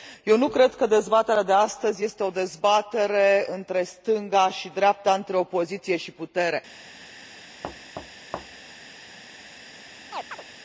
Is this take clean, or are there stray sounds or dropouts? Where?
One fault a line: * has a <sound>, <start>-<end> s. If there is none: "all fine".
* has a thud, 7.6-8.7 s
* has a chirp, 10.1-10.4 s